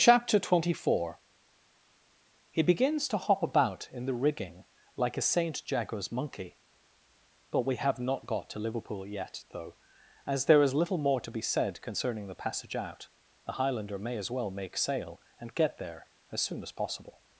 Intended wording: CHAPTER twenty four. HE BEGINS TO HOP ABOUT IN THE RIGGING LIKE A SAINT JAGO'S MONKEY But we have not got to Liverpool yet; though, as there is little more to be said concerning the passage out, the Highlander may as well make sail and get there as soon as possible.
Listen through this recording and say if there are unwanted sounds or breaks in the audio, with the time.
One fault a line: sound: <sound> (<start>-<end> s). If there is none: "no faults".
no faults